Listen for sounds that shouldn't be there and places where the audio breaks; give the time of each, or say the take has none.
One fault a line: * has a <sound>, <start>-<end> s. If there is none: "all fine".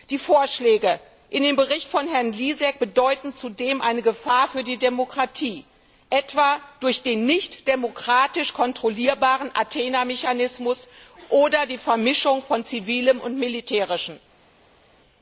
all fine